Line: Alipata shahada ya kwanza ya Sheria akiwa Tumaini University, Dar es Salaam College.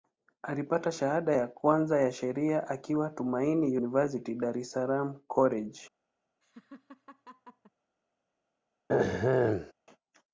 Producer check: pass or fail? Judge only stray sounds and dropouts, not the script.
fail